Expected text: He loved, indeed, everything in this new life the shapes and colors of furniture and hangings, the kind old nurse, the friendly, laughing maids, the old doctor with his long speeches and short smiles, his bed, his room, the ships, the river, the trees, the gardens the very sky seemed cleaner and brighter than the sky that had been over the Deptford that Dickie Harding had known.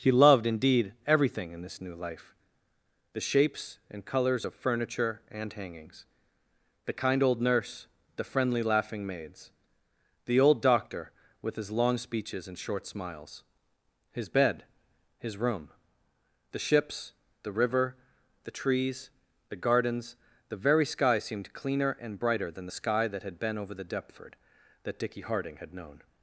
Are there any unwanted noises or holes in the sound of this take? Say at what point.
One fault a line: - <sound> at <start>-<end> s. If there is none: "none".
none